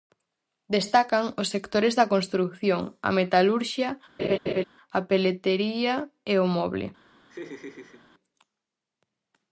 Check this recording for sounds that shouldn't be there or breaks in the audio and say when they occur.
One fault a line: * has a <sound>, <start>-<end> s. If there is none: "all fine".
* has a laugh, 4.2-4.6 s
* has a laugh, 7.3-8.1 s